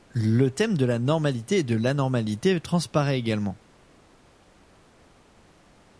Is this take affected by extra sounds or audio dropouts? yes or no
no